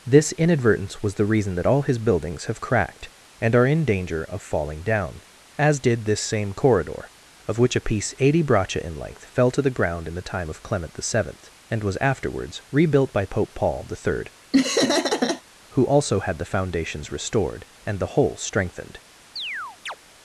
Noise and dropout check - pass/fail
fail